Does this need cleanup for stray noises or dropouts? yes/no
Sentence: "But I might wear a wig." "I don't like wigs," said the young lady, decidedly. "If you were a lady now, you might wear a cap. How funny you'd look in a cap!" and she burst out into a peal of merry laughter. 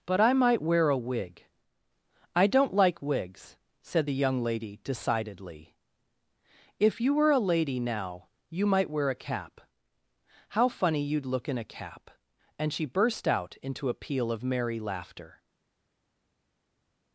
no